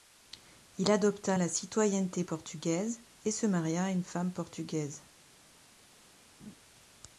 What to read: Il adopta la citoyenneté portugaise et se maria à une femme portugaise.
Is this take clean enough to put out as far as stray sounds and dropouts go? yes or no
no